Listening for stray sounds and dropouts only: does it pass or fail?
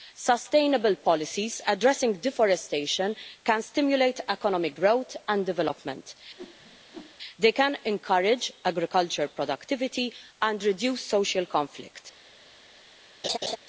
fail